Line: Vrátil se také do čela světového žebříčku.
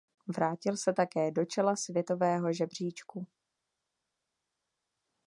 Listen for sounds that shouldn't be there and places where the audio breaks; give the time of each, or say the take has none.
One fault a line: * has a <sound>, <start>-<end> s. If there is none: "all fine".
all fine